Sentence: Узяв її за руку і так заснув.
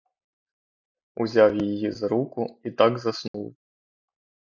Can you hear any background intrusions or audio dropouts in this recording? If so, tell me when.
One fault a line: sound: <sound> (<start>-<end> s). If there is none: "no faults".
sound: dropout (3.3-3.3 s)